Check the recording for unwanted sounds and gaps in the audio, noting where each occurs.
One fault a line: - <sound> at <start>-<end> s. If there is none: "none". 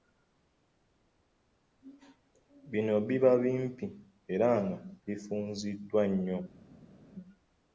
none